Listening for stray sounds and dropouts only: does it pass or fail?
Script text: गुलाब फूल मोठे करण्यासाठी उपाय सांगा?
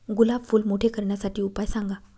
pass